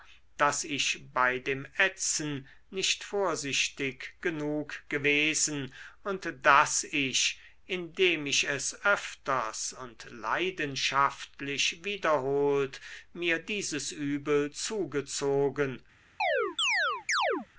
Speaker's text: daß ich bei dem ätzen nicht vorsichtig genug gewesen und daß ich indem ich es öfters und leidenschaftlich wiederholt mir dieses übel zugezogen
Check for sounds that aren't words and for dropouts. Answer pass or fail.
fail